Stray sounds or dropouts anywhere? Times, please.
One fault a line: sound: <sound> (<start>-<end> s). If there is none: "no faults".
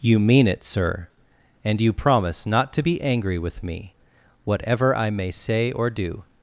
no faults